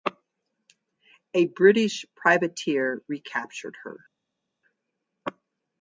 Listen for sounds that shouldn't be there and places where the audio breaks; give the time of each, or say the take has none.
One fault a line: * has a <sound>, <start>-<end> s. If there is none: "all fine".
all fine